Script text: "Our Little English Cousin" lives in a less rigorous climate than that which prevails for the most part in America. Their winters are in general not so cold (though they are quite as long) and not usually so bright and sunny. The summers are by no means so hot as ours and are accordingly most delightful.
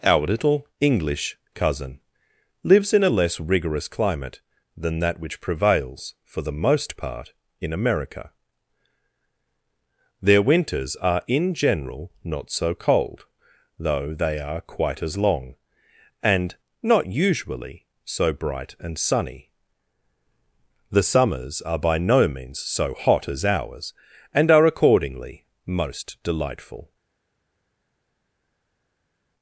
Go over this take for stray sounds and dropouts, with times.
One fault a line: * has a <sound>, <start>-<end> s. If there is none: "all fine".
all fine